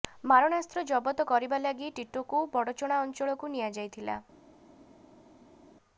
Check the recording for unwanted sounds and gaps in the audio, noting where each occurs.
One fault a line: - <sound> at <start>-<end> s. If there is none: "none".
none